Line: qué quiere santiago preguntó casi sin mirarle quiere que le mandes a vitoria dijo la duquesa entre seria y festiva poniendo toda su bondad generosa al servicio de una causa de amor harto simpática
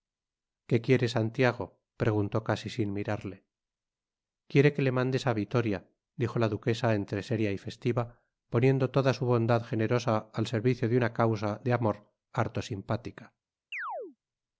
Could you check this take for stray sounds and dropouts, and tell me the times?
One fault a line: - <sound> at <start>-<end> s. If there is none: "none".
- chirp at 13.7-14.2 s